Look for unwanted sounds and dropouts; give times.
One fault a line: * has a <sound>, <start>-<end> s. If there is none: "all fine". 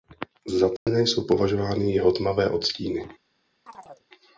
* has a dropout, 0.8-0.9 s
* has a chirp, 3.7-4.1 s